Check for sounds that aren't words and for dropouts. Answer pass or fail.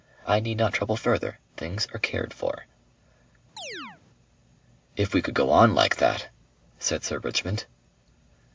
fail